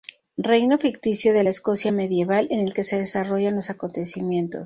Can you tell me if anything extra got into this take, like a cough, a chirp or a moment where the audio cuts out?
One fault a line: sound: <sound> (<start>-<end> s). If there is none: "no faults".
no faults